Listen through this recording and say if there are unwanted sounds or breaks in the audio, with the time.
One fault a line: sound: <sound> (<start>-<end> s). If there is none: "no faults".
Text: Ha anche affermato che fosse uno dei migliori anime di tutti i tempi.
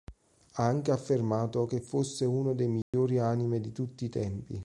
sound: dropout (2.8-2.9 s)